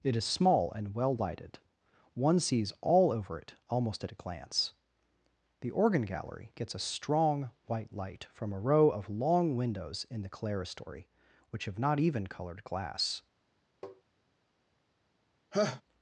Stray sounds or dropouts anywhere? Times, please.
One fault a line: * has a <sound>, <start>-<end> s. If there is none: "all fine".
* has a tap, 13.8-14.0 s
* has a laugh, 15.5-15.8 s